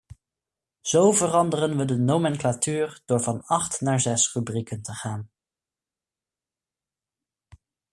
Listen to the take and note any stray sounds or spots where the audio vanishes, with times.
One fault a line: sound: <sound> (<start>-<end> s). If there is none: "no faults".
no faults